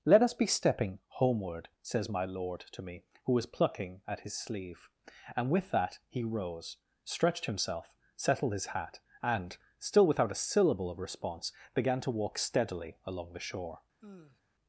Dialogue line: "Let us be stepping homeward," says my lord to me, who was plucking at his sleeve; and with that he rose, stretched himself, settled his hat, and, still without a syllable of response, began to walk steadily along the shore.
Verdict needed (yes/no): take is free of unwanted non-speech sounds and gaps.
no